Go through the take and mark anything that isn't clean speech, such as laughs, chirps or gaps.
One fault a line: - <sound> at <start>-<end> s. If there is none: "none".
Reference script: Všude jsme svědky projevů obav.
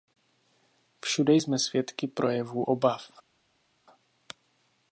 none